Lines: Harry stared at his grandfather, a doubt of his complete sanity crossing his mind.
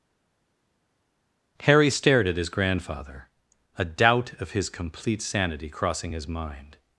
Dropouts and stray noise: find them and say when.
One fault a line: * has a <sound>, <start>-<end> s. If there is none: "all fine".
all fine